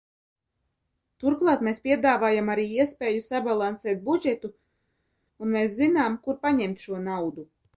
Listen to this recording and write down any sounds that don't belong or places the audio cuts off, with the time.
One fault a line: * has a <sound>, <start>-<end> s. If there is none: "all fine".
all fine